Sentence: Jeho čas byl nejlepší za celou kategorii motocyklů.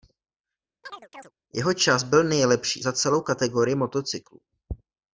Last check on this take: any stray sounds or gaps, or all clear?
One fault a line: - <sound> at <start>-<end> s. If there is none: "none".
- chirp at 0.8-1.3 s